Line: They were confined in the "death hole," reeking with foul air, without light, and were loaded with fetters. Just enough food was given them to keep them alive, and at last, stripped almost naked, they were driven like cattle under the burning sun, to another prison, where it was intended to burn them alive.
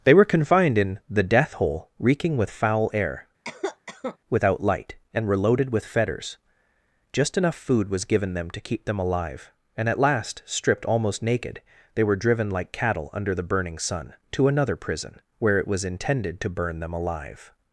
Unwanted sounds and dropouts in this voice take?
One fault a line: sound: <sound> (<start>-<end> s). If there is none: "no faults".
sound: cough (3.4-4.2 s)